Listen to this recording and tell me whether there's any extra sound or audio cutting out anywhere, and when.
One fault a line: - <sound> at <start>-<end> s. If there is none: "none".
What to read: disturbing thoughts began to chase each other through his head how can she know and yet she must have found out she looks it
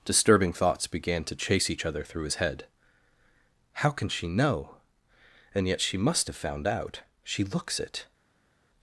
none